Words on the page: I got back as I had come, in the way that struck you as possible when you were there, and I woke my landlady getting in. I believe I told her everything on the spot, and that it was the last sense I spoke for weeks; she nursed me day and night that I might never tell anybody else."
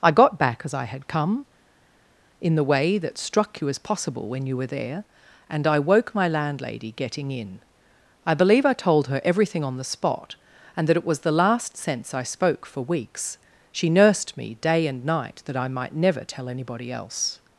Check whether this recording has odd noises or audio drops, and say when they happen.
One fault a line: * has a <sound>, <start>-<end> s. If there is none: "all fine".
all fine